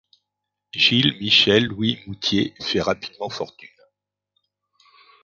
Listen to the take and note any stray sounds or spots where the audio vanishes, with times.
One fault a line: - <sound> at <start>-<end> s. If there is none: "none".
none